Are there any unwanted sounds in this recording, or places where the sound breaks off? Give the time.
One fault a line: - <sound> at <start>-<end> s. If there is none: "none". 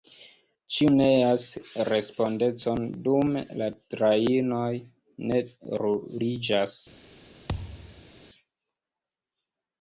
- thud at 7.5-8.1 s